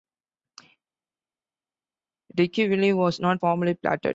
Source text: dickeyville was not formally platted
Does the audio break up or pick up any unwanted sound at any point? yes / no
no